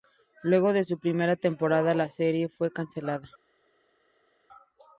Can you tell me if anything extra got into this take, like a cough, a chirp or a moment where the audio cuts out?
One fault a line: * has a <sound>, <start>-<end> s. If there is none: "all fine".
all fine